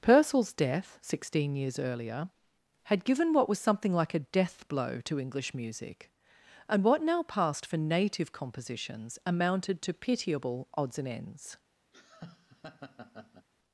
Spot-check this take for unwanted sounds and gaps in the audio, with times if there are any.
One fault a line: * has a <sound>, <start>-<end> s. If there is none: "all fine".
* has a laugh, 11.9-13.5 s